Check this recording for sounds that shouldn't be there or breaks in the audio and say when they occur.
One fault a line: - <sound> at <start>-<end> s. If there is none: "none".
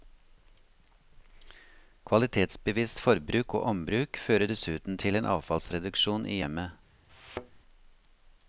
- thud at 7.1-7.6 s